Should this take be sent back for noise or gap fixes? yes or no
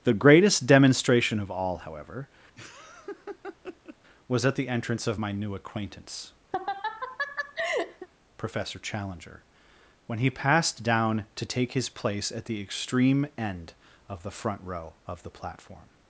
yes